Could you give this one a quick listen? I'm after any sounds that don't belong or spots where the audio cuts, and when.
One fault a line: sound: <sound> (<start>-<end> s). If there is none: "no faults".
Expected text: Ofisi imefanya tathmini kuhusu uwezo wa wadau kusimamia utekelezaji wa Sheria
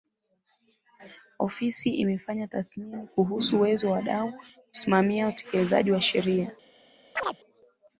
sound: chirp (7.2-7.4 s)